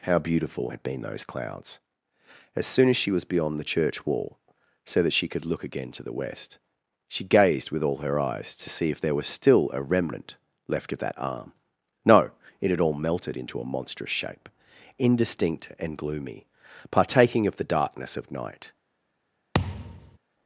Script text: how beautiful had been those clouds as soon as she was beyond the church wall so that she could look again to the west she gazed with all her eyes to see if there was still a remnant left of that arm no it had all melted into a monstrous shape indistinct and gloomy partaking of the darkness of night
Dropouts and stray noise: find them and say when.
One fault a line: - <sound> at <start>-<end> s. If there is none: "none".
- thud at 19.5-20.2 s